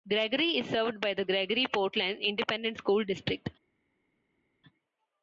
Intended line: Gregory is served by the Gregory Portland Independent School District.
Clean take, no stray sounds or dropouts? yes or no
yes